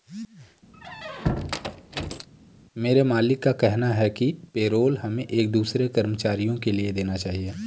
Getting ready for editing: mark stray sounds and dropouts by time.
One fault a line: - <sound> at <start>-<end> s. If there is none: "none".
- squeak at 0.7-2.3 s